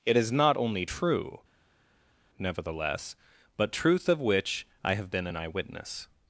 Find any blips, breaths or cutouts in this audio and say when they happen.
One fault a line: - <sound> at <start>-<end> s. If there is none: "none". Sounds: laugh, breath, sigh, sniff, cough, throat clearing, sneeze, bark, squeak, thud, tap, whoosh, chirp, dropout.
none